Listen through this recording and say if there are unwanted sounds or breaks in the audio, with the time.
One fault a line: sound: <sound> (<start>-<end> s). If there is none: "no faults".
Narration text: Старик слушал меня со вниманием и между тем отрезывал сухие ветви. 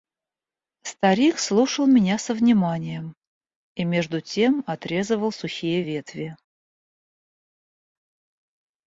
no faults